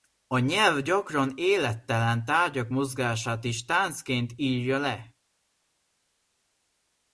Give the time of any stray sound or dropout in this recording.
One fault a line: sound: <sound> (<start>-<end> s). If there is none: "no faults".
no faults